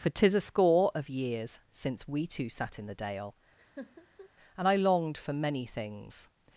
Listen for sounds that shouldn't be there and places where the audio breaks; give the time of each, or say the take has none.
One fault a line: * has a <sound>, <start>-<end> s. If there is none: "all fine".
* has a laugh, 3.6-4.3 s